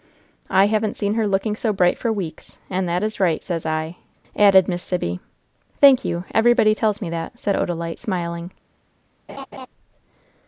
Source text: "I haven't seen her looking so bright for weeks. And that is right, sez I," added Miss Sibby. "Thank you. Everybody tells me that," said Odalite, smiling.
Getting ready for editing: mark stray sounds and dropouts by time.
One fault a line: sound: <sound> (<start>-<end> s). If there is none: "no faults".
sound: laugh (9.3-9.7 s)